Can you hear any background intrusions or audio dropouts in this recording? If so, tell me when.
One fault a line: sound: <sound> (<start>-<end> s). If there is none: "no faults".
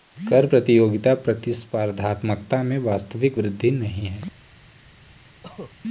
sound: cough (5.4-5.7 s)